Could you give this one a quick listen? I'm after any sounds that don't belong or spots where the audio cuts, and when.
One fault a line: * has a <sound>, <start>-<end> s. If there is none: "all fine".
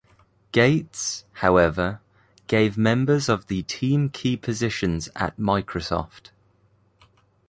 all fine